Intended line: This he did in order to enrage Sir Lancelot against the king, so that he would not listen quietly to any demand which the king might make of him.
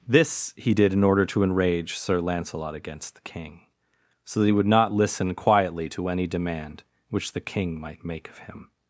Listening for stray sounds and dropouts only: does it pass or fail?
pass